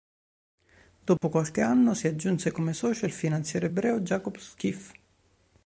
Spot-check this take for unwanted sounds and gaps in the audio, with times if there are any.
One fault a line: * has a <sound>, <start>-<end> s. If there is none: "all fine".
* has a dropout, 1.2-1.2 s